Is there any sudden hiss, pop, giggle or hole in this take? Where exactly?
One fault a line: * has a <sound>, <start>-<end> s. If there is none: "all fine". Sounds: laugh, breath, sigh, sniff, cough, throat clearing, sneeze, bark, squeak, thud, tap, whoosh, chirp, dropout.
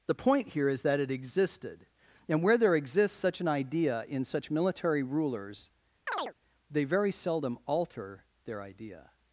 * has a chirp, 6.1-6.3 s